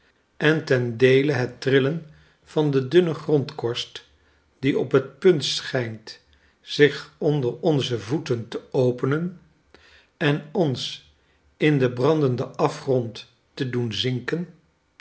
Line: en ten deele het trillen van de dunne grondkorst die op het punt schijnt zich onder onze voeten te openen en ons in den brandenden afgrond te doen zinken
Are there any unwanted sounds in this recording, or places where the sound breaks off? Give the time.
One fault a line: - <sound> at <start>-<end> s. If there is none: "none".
none